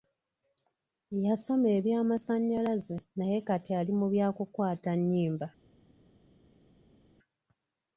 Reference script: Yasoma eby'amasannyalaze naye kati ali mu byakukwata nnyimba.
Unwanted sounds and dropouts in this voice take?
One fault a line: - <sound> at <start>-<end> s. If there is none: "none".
none